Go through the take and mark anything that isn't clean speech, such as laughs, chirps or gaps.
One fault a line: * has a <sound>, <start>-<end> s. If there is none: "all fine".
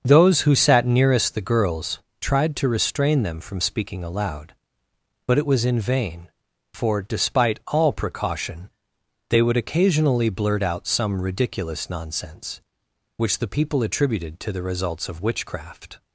all fine